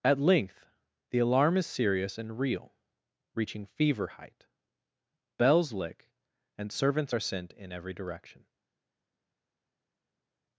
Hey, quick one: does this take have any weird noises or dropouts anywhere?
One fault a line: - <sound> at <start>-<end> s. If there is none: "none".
none